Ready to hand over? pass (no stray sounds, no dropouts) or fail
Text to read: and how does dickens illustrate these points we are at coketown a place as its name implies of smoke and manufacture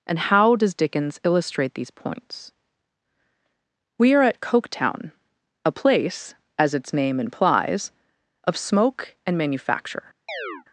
fail